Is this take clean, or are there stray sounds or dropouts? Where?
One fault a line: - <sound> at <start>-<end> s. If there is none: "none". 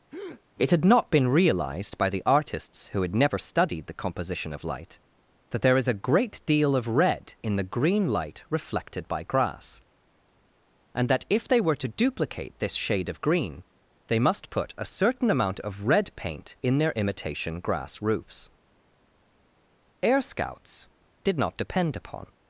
- breath at 0.1-0.4 s